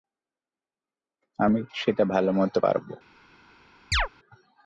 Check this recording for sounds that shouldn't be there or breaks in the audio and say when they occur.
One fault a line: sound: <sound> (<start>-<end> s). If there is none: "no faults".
sound: chirp (3.9-4.1 s)